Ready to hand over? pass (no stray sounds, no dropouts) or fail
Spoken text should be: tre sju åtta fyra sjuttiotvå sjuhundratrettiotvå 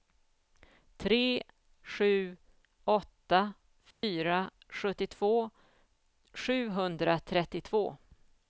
fail